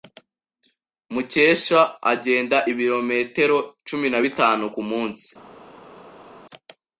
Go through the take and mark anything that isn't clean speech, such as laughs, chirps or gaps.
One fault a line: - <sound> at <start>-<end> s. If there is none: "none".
none